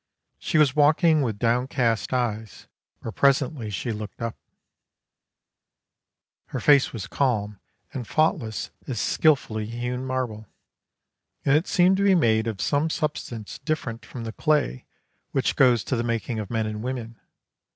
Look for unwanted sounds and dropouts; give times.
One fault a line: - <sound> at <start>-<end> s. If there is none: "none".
none